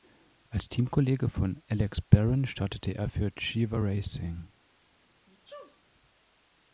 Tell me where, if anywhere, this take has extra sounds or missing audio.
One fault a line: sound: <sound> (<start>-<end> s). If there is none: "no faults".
sound: sneeze (5.3-5.8 s)